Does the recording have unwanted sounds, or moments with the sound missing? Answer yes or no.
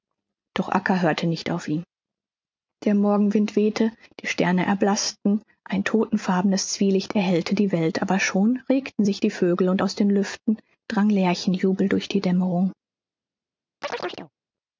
yes